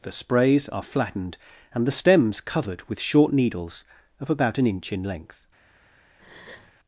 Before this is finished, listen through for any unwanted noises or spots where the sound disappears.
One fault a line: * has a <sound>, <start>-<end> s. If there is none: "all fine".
* has a breath, 6.2-6.7 s